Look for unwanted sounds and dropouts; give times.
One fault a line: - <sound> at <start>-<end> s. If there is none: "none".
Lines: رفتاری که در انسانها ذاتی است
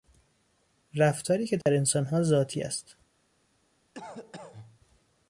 - dropout at 1.6-1.7 s
- cough at 3.9-4.8 s